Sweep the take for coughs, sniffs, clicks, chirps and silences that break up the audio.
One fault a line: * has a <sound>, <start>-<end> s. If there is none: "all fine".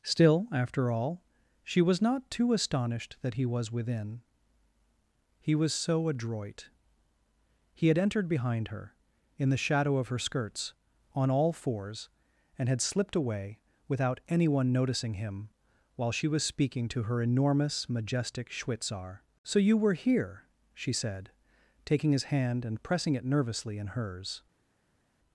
all fine